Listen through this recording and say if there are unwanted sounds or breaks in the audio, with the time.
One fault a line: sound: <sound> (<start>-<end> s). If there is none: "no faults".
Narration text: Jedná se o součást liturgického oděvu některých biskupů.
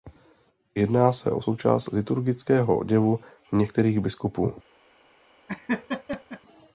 sound: laugh (5.5-6.4 s)